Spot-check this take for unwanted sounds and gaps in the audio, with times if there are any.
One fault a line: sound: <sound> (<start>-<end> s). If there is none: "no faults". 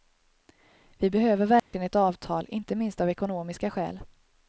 sound: dropout (1.6-1.7 s)